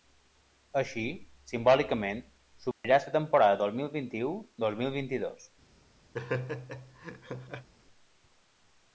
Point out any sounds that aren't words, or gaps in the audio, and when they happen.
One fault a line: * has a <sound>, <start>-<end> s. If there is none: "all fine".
* has a dropout, 2.7-2.8 s
* has a laugh, 6.1-7.7 s